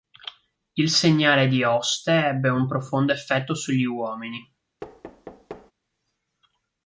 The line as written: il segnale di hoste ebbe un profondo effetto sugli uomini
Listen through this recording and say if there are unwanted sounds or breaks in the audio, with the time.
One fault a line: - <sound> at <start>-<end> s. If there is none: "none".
- thud at 4.8-5.7 s